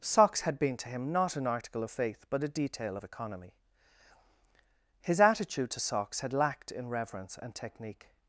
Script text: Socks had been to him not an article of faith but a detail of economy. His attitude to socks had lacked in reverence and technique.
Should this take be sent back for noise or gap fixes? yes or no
no